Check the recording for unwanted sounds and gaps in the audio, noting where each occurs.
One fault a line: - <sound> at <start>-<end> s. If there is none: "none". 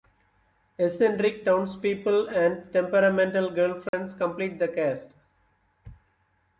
- dropout at 3.9-3.9 s